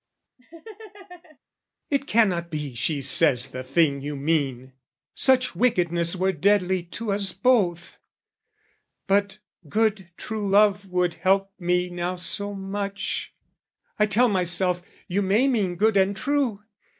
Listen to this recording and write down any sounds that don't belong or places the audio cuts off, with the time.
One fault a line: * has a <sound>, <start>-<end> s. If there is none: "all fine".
* has a laugh, 0.4-1.4 s